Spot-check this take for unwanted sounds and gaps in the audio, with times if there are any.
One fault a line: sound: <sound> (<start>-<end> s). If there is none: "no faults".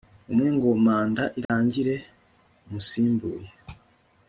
sound: dropout (1.4-1.5 s)